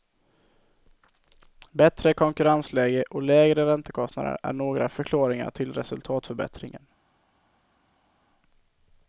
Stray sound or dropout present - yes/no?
no